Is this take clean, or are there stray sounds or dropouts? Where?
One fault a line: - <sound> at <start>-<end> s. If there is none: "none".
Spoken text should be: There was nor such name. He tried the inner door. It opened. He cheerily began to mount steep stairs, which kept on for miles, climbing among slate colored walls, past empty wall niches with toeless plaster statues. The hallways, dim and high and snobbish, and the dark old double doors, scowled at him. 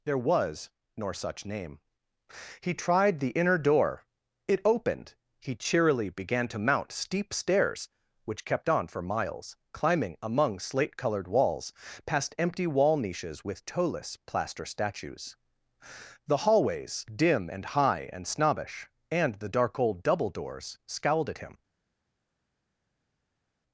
none